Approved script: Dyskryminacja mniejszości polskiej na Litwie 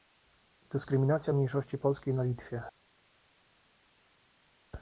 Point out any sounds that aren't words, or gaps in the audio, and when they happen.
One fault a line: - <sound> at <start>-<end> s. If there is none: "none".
none